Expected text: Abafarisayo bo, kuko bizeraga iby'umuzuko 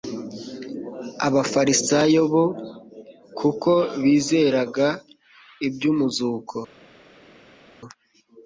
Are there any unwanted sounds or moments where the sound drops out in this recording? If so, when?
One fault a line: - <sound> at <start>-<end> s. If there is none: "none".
none